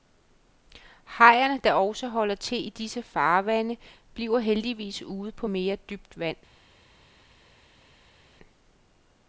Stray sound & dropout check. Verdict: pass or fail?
pass